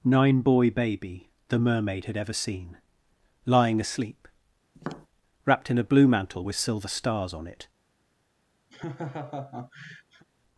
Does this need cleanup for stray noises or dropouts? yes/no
yes